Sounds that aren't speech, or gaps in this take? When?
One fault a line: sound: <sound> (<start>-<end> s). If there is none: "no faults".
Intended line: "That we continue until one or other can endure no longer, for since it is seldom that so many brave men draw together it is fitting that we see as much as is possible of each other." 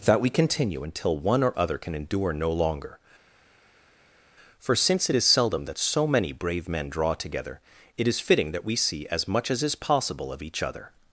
no faults